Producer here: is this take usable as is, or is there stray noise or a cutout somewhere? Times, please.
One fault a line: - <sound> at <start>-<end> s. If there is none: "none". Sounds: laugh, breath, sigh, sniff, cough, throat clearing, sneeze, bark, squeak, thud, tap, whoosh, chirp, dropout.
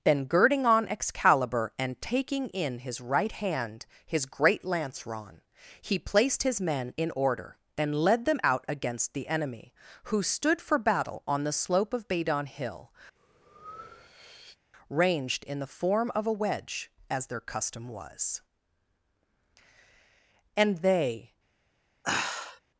- breath at 13.2-14.6 s
- sigh at 22.0-22.6 s